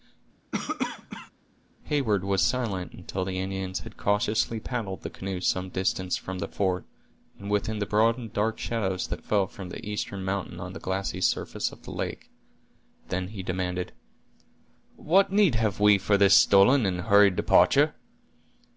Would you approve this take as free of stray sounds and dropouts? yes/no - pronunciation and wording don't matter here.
no